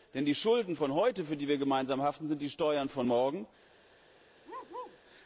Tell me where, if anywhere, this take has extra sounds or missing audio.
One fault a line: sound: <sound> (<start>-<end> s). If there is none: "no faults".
sound: bark (4.4-5.0 s)